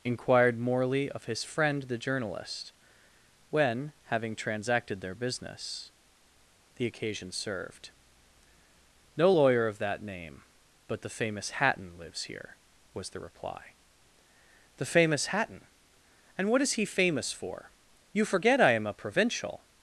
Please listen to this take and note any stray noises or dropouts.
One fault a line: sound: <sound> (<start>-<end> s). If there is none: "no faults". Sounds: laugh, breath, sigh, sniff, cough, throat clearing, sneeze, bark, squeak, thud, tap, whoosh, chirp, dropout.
no faults